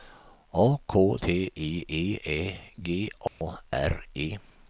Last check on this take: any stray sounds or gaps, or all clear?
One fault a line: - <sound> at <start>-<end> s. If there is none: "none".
- dropout at 3.3-3.4 s